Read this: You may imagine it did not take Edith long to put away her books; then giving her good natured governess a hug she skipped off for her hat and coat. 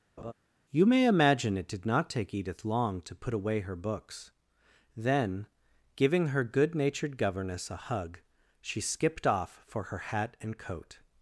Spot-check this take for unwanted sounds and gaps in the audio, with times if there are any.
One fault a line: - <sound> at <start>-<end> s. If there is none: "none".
- laugh at 0.2-0.3 s